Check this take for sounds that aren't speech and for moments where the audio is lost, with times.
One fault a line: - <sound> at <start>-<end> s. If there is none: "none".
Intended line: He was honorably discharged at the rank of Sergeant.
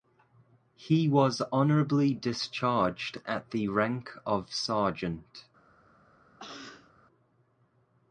- cough at 6.4-6.9 s